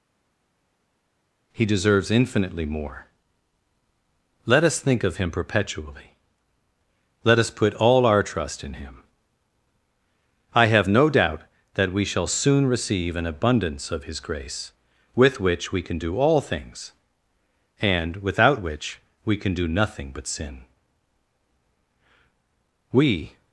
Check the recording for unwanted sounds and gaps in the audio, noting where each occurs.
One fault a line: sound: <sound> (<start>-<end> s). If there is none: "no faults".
no faults